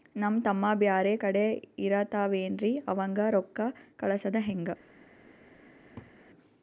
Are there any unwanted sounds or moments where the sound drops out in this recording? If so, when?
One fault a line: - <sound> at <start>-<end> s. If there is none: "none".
- laugh at 6.0-6.1 s